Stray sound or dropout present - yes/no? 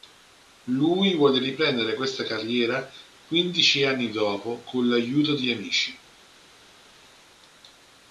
no